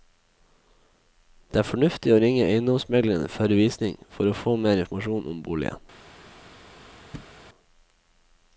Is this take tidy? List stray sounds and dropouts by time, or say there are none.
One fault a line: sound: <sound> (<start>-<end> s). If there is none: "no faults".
sound: thud (7.1-7.4 s)